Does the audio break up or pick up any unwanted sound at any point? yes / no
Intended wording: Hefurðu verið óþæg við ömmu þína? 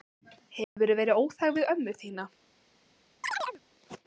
yes